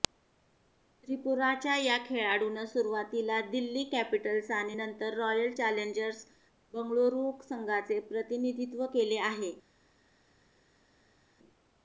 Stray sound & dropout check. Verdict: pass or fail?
pass